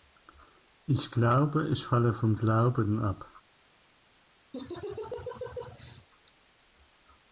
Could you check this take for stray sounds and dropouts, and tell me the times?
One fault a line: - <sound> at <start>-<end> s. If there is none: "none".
- laugh at 4.5-6.1 s